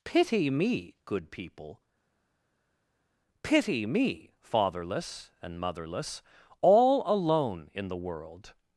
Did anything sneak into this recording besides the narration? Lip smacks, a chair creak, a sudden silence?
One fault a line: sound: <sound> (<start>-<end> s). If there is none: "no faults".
no faults